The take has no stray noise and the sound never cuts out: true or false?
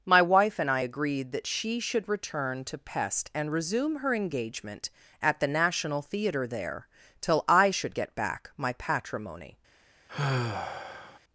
false